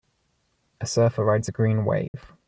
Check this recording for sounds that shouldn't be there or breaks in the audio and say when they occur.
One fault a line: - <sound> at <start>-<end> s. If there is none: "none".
- dropout at 2.1-2.1 s